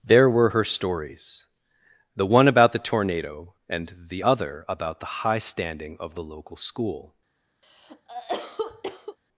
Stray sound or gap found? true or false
true